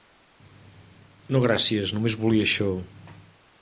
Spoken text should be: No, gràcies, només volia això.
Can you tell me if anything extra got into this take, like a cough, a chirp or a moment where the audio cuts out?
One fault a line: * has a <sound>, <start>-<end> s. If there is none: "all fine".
all fine